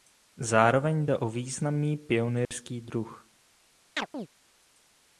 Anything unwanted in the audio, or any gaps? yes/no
yes